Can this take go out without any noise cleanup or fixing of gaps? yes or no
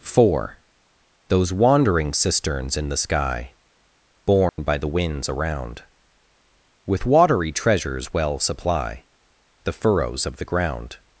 no